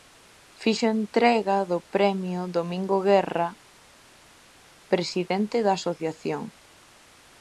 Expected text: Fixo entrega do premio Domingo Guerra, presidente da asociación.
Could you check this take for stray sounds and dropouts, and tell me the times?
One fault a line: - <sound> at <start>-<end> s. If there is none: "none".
none